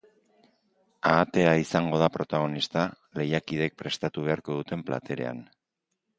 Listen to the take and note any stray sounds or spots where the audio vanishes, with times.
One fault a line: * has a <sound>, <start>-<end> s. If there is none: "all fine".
all fine